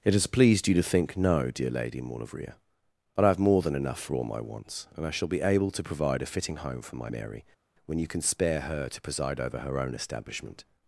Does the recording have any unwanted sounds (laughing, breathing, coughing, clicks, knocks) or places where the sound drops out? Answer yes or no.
no